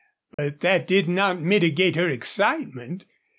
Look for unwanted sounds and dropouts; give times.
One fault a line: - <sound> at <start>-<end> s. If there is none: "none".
- dropout at 0.3-0.4 s